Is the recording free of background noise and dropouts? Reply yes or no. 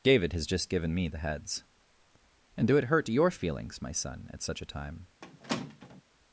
no